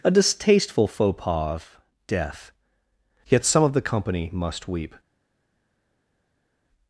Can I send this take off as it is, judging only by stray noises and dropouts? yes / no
yes